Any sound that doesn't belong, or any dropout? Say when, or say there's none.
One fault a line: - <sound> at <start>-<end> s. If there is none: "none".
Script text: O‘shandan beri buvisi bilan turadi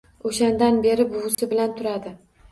- dropout at 1.3-1.4 s